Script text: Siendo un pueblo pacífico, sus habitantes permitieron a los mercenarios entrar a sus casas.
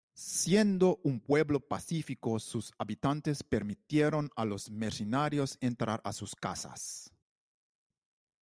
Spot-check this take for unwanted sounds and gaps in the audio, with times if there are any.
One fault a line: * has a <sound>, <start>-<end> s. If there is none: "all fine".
all fine